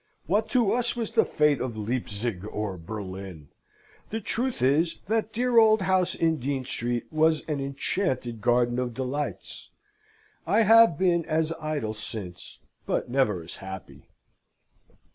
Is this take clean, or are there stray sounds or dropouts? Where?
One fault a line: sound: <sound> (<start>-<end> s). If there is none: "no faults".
no faults